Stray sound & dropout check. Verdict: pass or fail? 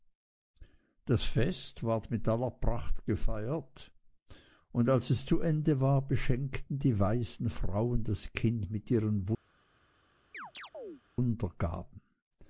fail